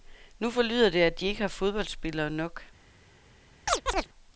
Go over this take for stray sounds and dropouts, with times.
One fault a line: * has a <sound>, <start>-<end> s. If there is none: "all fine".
* has a chirp, 3.7-4.1 s